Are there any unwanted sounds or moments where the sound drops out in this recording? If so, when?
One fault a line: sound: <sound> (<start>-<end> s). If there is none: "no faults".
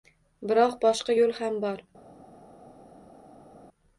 no faults